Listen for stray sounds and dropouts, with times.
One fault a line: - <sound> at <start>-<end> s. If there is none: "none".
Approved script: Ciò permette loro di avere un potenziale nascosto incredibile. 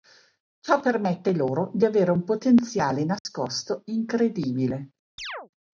- dropout at 3.2-3.2 s
- chirp at 5.2-5.5 s